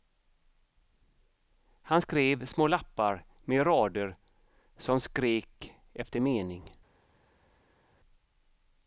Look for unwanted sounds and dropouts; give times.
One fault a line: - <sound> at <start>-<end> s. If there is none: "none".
none